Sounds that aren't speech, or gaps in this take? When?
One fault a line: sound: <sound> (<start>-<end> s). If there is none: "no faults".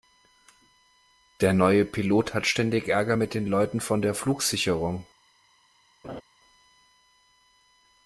sound: laugh (6.0-6.2 s)